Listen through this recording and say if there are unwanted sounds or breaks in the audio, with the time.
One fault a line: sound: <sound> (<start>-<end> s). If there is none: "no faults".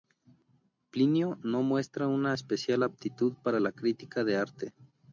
no faults